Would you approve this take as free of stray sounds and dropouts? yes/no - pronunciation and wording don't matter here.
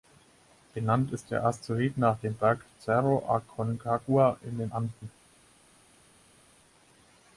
yes